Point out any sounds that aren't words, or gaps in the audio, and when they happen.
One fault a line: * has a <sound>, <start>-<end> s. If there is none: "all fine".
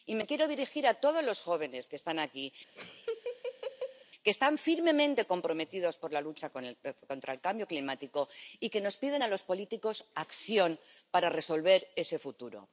* has a laugh, 2.8-4.1 s